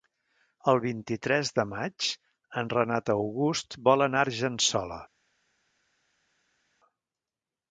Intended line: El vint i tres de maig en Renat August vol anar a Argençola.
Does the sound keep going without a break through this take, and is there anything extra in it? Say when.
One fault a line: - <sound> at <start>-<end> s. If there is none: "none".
none